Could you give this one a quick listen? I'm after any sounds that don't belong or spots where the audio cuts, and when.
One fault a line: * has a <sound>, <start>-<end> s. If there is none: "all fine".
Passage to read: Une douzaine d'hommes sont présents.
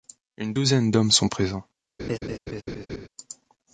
* has a laugh, 2.0-3.1 s